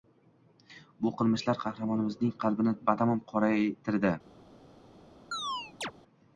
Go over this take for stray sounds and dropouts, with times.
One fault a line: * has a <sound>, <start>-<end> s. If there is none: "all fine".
* has a chirp, 5.3-5.9 s